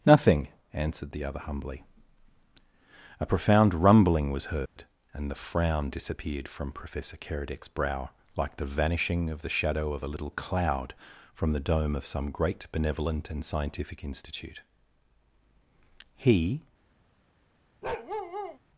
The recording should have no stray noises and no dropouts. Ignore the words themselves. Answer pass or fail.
fail